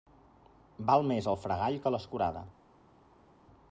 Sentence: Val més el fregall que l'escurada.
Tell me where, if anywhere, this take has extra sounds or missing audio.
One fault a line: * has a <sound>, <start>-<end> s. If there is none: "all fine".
all fine